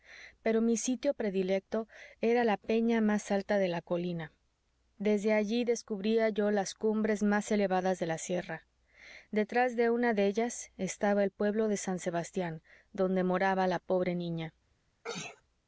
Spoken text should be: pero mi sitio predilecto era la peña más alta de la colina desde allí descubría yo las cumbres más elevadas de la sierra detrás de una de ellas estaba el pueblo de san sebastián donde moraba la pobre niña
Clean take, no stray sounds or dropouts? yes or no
no